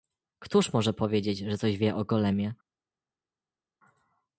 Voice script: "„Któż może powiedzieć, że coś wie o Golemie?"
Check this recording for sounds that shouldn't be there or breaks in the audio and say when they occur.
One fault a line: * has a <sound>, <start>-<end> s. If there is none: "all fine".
all fine